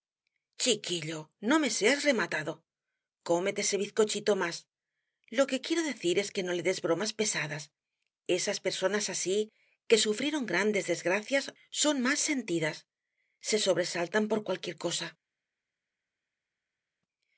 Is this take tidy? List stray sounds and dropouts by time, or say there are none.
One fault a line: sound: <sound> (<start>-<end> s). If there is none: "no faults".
no faults